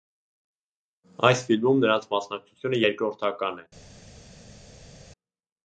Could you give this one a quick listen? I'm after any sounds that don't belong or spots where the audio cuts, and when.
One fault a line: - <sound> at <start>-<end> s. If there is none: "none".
none